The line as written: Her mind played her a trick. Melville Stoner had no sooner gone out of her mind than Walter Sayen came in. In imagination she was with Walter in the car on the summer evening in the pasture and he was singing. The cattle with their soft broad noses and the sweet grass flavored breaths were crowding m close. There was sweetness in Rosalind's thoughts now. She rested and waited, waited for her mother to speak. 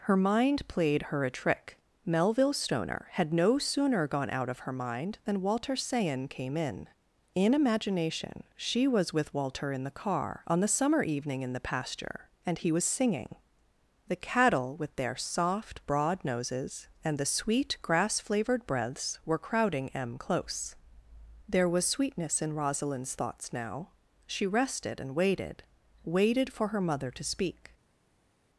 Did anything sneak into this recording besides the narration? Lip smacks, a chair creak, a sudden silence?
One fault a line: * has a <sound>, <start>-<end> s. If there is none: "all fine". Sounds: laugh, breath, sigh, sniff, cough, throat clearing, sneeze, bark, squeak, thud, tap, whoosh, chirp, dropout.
all fine